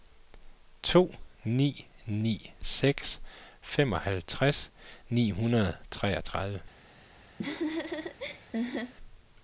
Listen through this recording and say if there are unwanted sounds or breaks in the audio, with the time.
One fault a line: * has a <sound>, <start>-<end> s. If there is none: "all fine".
* has a laugh, 7.4-8.9 s